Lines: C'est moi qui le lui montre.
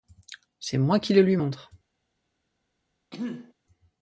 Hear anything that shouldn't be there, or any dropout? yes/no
yes